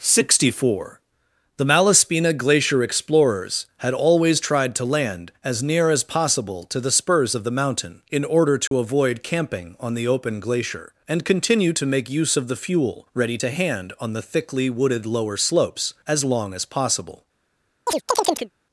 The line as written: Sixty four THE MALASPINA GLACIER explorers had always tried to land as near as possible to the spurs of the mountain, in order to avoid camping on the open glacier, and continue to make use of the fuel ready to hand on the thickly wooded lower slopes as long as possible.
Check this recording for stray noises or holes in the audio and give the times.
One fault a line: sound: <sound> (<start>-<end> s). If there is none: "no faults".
sound: dropout (8.7-8.7 s)
sound: chirp (17.9-18.5 s)